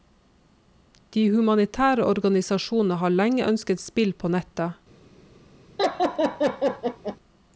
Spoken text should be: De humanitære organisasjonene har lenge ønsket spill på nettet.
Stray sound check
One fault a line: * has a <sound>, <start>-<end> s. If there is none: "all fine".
* has a laugh, 5.8-7.2 s